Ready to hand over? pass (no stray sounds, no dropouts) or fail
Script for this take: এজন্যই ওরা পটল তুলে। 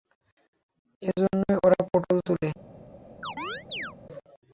fail